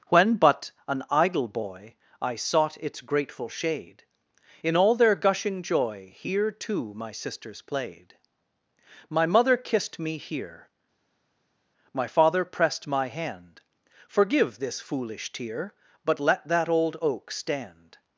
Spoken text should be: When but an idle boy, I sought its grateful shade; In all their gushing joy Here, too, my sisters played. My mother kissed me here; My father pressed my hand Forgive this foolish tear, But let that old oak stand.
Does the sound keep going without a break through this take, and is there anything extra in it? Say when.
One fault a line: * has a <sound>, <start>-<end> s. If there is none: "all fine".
all fine